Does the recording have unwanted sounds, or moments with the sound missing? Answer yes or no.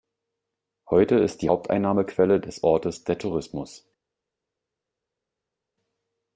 no